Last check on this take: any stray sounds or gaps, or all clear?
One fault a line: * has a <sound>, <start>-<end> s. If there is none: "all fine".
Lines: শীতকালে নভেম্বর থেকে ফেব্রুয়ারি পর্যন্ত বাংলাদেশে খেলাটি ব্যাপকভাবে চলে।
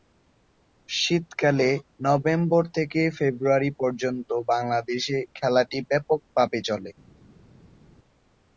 all fine